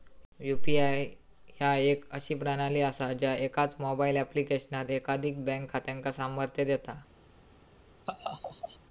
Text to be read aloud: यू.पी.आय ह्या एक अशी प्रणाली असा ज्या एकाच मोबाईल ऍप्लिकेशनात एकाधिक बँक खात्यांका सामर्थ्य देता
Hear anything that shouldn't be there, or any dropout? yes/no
yes